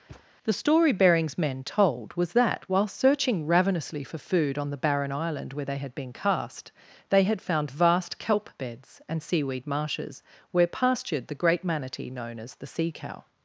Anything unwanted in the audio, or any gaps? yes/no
yes